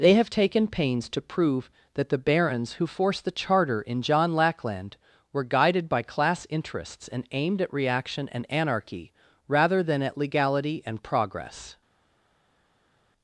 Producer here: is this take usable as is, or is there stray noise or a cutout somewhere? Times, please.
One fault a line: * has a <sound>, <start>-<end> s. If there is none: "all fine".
all fine